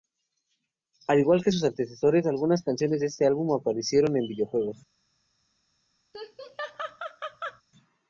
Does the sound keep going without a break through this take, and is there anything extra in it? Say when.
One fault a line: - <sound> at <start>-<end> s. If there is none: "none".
- laugh at 6.1-7.6 s